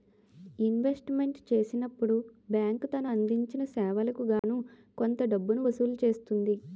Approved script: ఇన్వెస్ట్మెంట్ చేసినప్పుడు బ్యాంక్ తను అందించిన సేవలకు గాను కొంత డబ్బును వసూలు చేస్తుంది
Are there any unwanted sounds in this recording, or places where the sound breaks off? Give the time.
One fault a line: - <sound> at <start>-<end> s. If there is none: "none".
- dropout at 4.4-4.4 s